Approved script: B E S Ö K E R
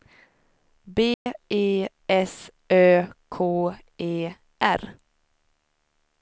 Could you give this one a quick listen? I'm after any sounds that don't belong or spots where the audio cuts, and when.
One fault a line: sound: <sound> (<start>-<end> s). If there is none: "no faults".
sound: dropout (1.1-1.3 s)